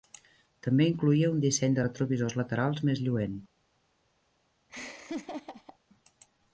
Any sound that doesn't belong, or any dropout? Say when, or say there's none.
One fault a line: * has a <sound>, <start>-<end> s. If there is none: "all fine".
* has a laugh, 4.7-5.8 s